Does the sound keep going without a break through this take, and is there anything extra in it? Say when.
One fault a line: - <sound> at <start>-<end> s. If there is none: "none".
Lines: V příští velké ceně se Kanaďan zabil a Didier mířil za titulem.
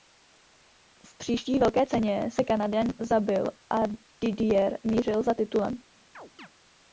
- chirp at 6.1-6.5 s